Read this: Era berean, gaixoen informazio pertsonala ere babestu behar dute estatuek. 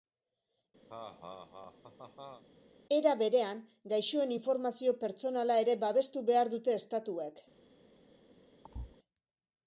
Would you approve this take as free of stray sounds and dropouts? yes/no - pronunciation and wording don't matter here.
no